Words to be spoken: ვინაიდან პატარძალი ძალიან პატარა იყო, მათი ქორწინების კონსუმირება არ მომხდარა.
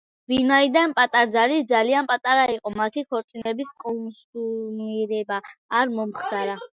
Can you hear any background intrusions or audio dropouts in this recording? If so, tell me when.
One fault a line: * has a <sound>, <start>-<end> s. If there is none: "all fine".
* has a dropout, 3.4-3.5 s